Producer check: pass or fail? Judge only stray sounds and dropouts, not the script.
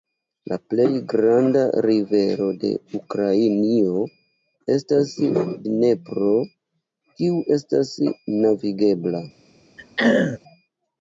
fail